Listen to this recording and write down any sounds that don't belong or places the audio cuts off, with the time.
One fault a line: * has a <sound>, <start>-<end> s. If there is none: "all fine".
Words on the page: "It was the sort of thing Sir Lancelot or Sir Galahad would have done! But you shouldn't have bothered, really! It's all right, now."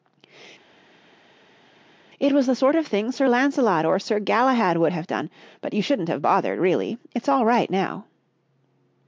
all fine